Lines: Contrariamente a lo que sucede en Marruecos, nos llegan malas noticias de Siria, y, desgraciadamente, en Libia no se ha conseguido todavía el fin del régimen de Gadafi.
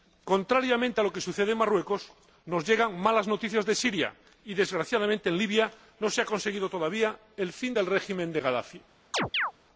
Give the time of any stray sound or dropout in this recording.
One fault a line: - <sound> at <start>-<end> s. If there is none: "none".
- chirp at 9.1-9.5 s